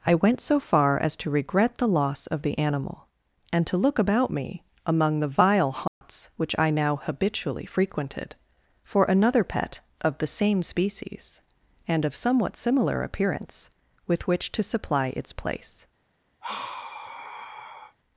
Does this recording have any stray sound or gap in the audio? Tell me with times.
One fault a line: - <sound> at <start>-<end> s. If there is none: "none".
- dropout at 5.9-6.0 s
- sigh at 16.4-18.0 s